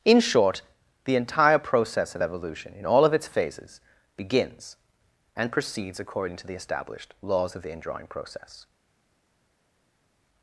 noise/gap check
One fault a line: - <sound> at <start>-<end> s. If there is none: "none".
none